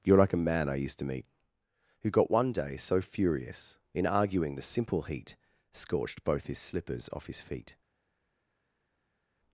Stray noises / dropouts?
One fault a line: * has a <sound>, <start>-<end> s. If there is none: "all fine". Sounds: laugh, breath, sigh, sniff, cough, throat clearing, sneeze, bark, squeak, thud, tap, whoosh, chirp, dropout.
all fine